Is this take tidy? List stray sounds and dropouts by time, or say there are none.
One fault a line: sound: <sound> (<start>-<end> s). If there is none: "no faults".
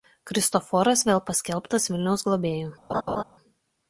sound: laugh (2.9-3.2 s)